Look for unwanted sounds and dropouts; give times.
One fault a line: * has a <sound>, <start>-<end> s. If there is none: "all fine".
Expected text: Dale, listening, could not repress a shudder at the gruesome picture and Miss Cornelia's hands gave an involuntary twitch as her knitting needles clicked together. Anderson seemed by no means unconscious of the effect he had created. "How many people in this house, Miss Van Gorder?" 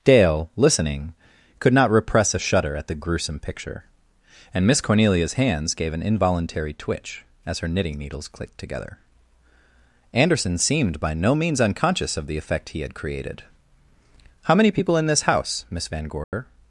* has a dropout, 16.2-16.3 s